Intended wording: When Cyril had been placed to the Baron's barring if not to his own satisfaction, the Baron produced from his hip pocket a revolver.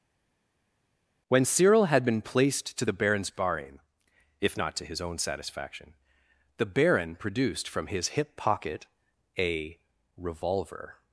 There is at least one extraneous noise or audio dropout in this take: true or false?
false